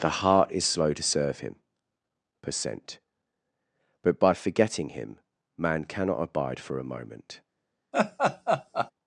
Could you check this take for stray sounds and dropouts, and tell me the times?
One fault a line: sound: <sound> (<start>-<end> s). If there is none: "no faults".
sound: laugh (7.9-8.9 s)